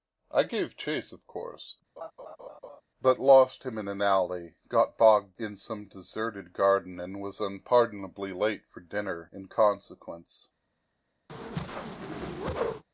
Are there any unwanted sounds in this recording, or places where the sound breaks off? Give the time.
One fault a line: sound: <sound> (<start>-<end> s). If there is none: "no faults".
sound: laugh (2.0-2.8 s)
sound: whoosh (11.3-12.8 s)